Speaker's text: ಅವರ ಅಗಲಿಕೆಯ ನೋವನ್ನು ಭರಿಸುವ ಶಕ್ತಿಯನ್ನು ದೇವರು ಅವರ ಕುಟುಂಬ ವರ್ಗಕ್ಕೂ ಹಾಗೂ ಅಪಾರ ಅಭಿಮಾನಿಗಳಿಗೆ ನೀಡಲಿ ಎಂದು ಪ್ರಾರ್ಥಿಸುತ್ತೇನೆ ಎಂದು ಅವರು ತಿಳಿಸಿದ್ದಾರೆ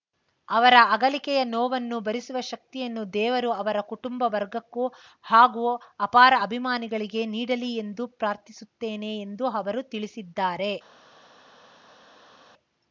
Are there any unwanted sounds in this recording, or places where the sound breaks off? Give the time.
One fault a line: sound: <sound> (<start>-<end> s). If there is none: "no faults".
no faults